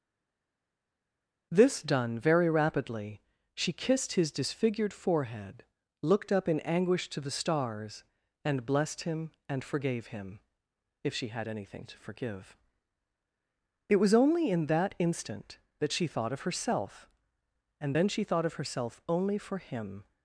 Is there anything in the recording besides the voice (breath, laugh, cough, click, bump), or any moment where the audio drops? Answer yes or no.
no